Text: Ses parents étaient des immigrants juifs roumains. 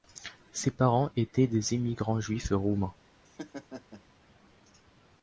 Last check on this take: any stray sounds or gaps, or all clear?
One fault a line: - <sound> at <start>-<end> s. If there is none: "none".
- laugh at 3.2-4.0 s